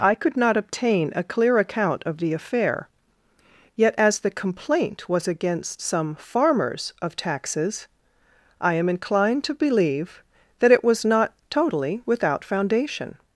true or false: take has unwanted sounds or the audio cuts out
false